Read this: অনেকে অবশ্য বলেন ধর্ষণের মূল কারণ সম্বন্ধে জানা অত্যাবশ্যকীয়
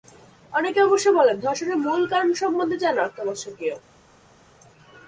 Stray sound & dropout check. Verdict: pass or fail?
pass